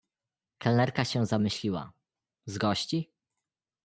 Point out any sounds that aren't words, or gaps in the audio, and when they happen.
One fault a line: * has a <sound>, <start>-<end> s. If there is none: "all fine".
all fine